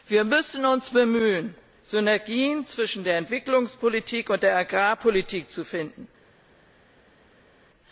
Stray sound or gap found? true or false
false